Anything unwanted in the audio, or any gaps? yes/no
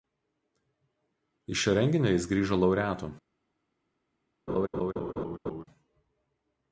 yes